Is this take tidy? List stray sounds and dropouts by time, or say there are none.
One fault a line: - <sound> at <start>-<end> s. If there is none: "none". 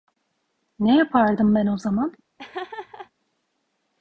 - laugh at 2.4-3.1 s